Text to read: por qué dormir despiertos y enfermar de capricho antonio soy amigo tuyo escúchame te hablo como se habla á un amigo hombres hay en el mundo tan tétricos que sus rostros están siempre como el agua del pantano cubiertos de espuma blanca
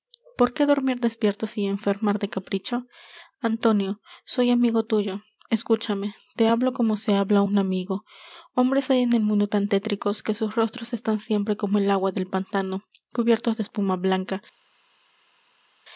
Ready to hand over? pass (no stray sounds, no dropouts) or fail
pass